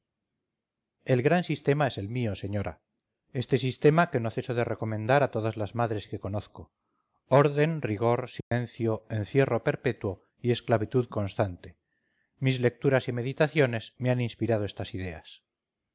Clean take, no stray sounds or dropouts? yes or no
no